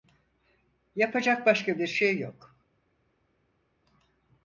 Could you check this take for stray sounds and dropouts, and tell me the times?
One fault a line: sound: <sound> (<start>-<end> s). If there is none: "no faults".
no faults